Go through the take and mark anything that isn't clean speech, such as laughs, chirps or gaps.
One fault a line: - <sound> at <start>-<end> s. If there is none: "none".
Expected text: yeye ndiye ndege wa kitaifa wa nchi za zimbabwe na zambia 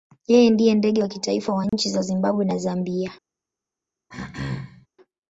- dropout at 1.7-1.7 s
- throat clearing at 4.1-4.9 s